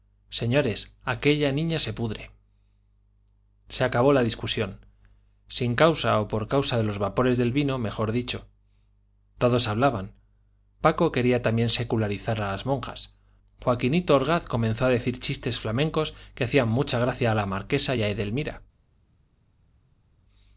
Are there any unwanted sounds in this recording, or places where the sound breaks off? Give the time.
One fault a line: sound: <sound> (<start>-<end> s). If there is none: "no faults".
no faults